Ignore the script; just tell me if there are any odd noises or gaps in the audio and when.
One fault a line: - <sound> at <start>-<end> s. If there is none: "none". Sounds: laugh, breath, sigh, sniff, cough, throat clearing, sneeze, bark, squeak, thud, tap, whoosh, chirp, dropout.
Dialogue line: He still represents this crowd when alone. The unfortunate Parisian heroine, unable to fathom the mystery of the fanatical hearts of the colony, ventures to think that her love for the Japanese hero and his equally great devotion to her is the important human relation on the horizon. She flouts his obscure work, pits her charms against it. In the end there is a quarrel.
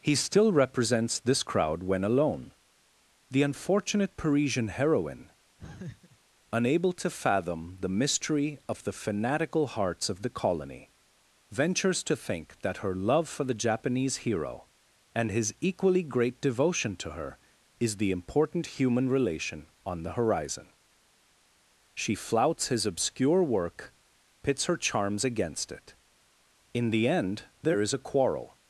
- laugh at 5.6-6.2 s